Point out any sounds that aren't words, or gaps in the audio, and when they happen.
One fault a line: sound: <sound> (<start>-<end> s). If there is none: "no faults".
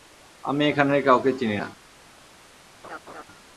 sound: laugh (2.8-3.2 s)